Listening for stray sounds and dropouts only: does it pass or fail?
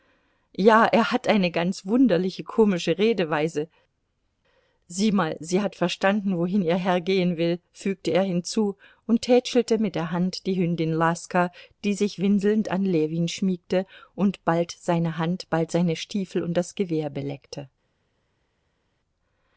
pass